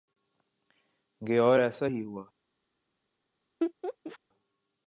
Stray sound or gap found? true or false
true